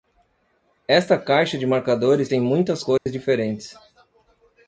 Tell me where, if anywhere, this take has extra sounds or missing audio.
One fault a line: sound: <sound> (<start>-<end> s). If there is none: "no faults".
sound: dropout (3.0-3.1 s)